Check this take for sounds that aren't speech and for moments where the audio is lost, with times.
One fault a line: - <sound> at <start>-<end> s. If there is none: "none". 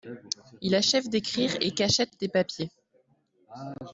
none